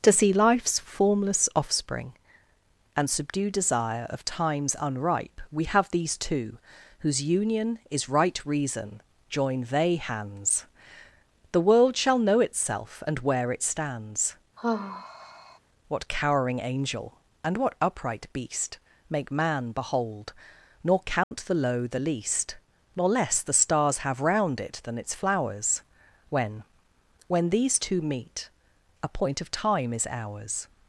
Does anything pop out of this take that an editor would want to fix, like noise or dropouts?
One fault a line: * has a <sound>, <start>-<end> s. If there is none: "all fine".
* has a sigh, 14.6-15.6 s
* has a dropout, 21.2-21.3 s